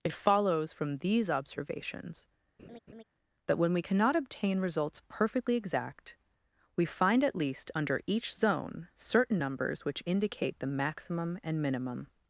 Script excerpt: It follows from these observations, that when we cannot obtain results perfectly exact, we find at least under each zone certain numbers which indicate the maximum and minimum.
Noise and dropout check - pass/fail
fail